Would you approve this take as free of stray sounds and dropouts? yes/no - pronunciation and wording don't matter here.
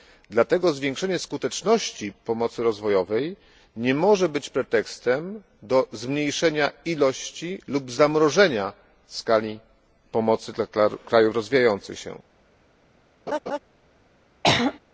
no